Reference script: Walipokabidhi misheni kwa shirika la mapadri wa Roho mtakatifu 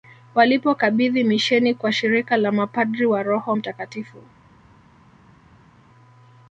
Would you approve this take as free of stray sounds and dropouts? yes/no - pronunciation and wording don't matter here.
yes